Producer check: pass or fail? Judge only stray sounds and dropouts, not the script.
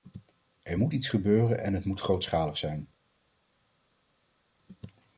pass